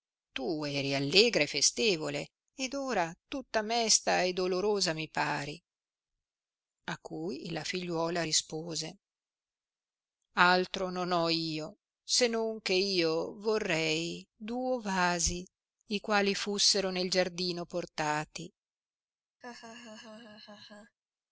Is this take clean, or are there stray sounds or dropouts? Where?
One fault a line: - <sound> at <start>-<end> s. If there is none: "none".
- laugh at 19.4-21.0 s